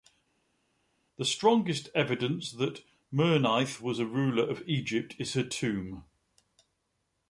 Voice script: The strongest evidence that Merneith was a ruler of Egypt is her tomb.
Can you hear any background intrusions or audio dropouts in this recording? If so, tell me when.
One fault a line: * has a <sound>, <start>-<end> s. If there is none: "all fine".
all fine